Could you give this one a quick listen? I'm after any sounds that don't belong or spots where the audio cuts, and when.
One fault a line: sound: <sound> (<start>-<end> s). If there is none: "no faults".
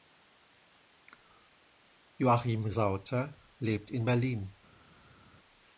no faults